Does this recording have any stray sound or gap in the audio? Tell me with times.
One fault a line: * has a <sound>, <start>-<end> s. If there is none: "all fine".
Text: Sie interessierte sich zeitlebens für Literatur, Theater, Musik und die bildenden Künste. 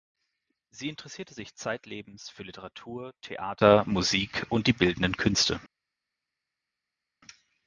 all fine